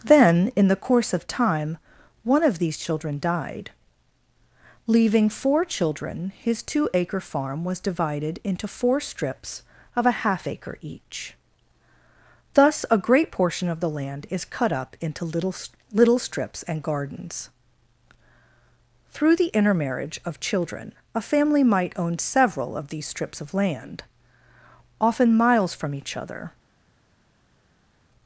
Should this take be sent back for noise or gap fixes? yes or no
no